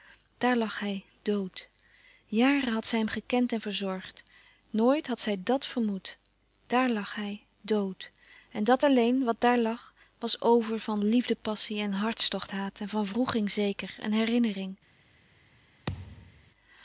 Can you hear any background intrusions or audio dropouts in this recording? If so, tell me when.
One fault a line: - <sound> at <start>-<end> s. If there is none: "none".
- thud at 15.9-16.5 s